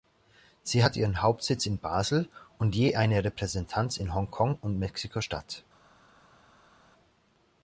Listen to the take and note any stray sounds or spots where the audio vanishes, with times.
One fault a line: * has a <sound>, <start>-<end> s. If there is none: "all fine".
all fine